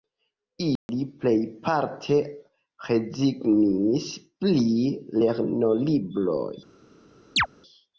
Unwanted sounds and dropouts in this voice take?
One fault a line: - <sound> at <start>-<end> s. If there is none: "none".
- dropout at 0.8-0.9 s
- chirp at 7.4-7.5 s